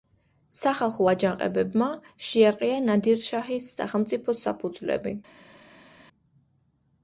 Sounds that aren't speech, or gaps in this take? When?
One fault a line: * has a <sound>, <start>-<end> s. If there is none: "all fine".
all fine